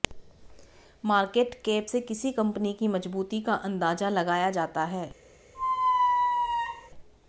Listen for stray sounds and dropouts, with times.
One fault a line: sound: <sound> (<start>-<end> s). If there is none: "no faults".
sound: squeak (5.5-6.9 s)